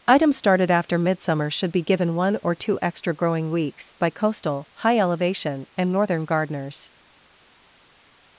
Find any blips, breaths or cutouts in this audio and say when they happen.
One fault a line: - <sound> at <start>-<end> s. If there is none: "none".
none